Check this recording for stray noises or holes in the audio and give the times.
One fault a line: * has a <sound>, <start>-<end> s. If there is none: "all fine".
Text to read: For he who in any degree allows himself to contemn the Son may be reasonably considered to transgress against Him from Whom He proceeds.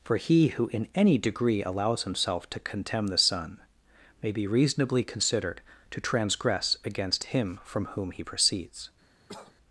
* has a cough, 9.3-9.6 s